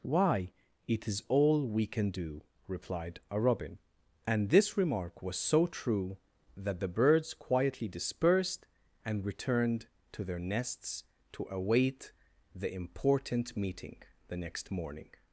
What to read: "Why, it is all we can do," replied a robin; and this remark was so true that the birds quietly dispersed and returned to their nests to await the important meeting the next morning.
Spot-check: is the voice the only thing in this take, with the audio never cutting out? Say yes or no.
yes